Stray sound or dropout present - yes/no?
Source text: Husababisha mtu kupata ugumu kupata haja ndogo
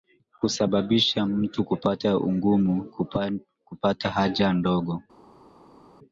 no